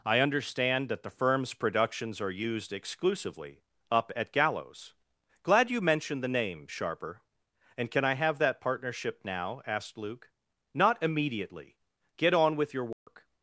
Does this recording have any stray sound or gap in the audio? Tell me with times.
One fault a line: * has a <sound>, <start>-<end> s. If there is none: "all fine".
* has a dropout, 12.9-13.1 s